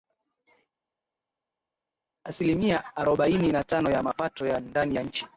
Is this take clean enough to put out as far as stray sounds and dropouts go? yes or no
yes